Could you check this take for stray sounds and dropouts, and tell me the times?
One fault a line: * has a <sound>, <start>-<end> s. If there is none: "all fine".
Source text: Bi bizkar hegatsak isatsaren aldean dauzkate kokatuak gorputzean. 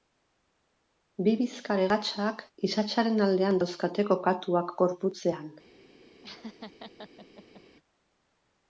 * has a laugh, 6.2-7.6 s